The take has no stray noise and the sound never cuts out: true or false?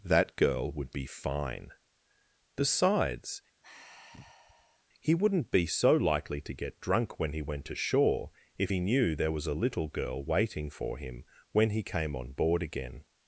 false